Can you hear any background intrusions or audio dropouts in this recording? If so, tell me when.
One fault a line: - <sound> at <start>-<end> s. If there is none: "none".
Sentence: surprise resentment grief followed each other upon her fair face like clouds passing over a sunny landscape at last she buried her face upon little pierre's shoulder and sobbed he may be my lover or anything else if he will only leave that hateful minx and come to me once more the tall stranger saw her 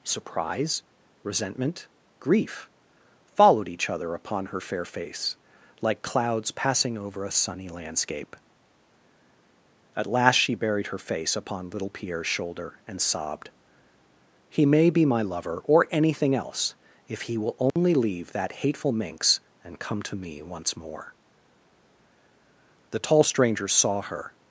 - dropout at 17.7-17.8 s